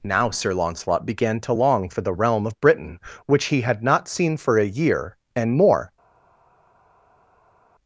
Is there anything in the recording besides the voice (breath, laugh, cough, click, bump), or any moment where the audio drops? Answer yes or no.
no